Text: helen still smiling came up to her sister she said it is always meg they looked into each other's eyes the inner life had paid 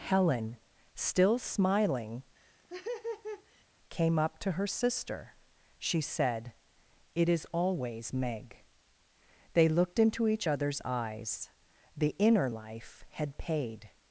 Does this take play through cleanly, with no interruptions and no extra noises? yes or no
no